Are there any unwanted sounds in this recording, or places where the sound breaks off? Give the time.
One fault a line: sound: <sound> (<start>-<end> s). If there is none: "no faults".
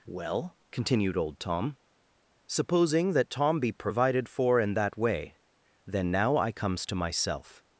no faults